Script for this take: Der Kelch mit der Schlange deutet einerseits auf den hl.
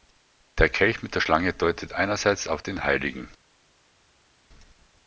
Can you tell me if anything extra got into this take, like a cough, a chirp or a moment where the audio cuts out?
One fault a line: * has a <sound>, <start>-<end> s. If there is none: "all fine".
all fine